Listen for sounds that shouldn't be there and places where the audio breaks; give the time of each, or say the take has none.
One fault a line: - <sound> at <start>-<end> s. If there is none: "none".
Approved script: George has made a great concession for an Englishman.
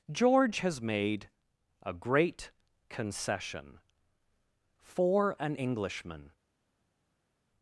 none